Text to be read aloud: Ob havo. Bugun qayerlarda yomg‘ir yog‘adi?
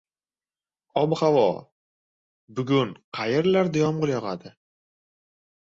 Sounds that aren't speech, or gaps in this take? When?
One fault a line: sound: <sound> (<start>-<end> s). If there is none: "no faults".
no faults